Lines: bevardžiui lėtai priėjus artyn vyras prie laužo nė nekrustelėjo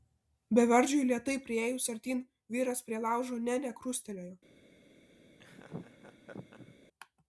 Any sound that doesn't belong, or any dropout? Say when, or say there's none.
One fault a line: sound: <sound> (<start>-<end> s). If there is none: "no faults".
sound: laugh (5.4-6.8 s)